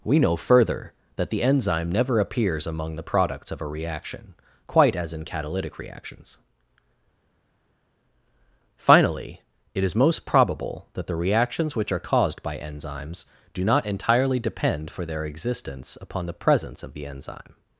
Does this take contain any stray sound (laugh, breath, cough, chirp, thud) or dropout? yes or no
no